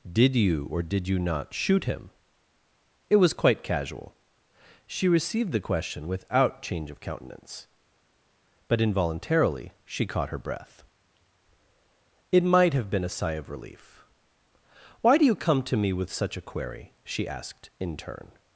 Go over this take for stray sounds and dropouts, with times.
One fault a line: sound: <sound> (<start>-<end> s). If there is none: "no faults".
no faults